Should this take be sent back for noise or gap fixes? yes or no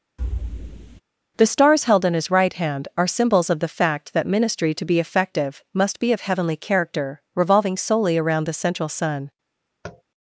yes